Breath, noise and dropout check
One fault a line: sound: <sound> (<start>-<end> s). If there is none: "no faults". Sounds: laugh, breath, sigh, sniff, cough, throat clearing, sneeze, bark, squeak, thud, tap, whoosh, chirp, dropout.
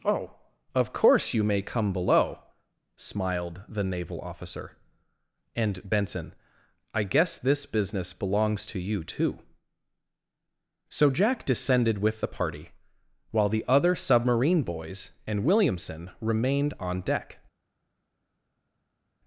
no faults